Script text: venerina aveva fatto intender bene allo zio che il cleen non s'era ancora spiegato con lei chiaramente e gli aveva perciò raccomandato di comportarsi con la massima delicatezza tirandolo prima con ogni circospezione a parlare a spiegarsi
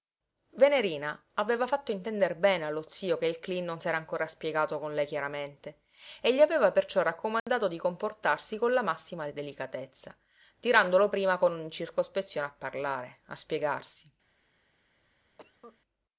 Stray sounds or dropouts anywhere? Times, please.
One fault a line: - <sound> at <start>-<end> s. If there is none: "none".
- dropout at 7.4-7.5 s
- cough at 15.4-15.8 s